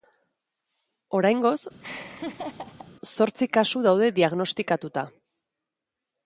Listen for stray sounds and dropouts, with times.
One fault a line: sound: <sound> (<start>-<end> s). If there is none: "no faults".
sound: laugh (1.8-2.9 s)